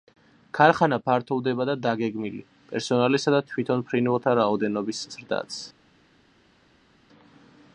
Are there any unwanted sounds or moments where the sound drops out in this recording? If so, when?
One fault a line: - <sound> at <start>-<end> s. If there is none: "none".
none